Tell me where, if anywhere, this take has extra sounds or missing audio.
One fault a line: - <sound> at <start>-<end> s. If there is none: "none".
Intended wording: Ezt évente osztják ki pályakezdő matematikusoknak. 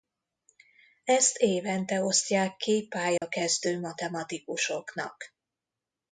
- dropout at 3.2-3.2 s